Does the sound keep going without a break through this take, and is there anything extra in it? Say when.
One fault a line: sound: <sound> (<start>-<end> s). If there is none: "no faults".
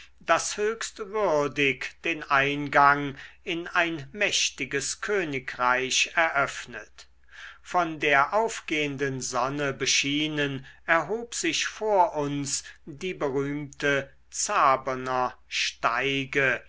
no faults